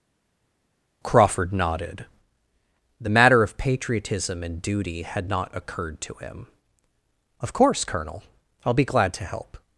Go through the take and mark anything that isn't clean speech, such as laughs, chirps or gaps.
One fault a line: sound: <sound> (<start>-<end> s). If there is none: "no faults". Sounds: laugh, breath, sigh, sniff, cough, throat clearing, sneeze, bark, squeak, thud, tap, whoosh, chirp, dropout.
no faults